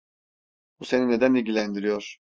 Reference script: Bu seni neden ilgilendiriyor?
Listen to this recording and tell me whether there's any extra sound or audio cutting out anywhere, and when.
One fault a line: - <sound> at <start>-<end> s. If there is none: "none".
none